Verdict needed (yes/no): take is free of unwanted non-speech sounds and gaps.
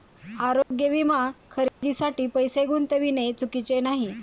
no